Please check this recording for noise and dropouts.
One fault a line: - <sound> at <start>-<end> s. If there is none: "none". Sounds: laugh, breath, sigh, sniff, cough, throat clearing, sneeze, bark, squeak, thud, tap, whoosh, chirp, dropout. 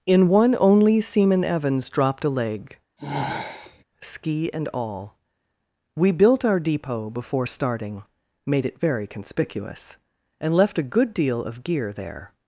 - sigh at 3.0-3.8 s